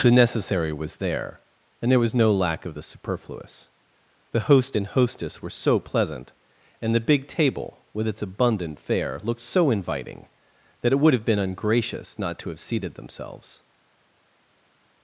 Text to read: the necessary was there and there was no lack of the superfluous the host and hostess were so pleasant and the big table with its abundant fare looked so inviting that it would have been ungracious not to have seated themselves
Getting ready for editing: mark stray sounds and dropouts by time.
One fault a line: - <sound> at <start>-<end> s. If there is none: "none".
none